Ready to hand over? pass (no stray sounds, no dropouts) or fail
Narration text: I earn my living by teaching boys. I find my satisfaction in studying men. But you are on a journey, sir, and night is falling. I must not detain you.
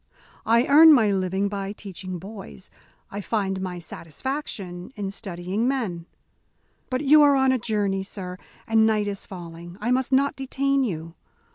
pass